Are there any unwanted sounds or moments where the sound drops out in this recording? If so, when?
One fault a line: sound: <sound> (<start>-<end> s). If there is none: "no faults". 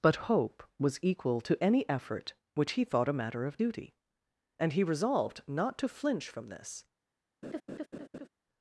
sound: laugh (7.4-8.3 s)